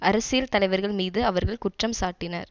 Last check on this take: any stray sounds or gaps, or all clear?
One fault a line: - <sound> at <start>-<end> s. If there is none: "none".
none